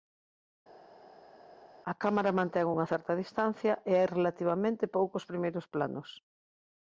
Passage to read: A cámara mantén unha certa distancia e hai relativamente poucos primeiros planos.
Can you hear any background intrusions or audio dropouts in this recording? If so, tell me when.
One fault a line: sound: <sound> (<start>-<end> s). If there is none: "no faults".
no faults